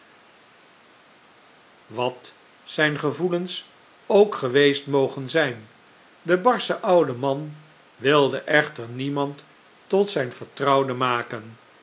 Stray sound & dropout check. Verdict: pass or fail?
pass